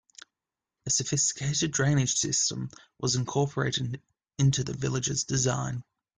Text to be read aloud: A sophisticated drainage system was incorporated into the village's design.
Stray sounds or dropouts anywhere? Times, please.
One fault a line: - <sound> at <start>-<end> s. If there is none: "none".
none